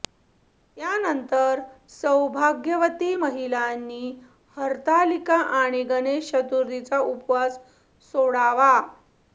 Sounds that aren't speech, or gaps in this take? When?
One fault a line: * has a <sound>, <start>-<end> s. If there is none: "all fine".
all fine